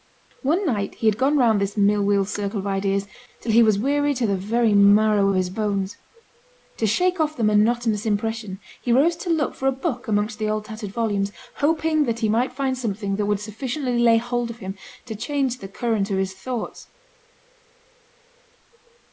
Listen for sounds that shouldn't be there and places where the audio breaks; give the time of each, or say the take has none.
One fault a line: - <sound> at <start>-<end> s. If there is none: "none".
none